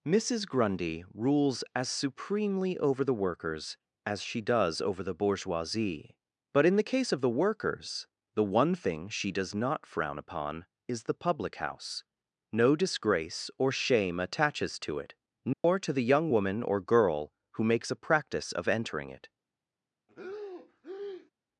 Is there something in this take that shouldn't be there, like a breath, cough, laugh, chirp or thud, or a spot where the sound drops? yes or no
yes